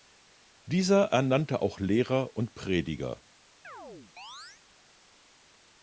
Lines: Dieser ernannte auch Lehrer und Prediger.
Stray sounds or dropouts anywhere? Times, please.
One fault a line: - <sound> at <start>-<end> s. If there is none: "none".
- chirp at 3.6-4.6 s